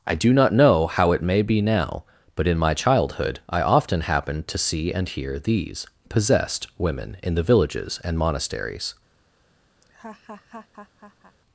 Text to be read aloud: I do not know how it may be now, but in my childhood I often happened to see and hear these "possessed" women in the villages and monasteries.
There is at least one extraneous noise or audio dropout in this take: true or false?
true